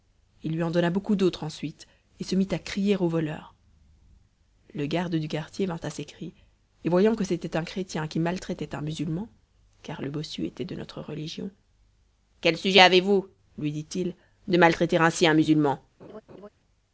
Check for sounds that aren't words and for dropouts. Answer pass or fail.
fail